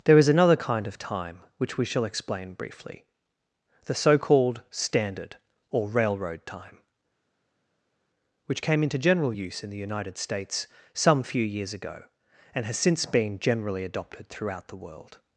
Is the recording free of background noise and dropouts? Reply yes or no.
yes